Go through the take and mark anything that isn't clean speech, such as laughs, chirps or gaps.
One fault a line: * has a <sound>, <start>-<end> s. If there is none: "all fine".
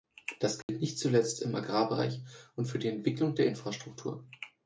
* has a dropout, 0.6-0.7 s